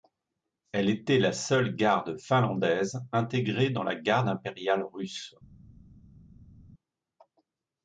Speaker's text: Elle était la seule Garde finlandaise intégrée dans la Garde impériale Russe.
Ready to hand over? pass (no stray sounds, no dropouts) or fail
pass